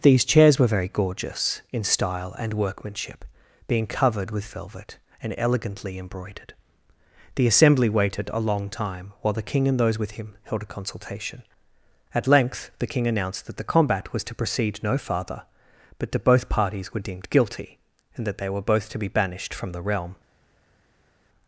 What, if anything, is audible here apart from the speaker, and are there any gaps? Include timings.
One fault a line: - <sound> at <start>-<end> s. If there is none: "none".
none